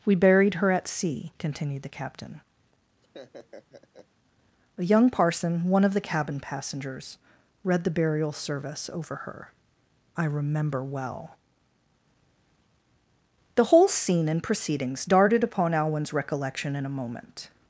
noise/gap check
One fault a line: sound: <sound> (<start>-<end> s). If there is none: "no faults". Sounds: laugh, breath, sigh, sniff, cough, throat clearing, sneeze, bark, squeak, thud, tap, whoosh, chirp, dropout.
sound: laugh (3.0-4.1 s)